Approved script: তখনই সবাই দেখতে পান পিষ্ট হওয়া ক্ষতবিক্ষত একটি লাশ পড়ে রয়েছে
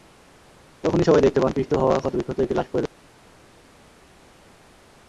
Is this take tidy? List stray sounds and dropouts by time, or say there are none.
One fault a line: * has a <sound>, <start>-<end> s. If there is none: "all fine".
all fine